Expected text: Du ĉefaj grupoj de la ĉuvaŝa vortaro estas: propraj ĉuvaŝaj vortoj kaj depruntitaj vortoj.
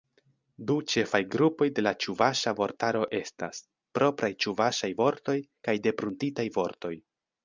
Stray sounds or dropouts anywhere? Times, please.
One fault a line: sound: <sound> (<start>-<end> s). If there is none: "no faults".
no faults